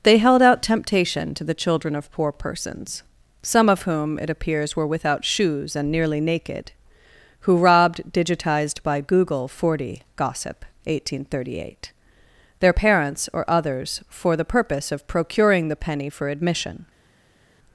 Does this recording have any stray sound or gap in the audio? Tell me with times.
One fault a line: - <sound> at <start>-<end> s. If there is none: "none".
none